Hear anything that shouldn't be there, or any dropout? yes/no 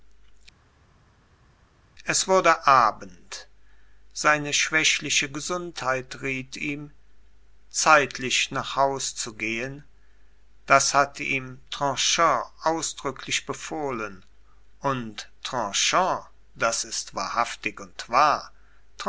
no